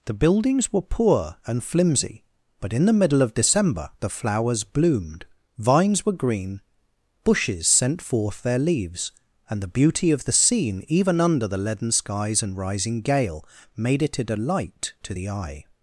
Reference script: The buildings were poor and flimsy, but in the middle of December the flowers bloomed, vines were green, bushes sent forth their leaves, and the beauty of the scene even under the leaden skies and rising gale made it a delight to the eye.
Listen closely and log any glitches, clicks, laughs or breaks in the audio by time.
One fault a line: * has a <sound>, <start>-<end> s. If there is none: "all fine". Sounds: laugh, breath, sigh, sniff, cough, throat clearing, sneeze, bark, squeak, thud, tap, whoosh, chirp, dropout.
all fine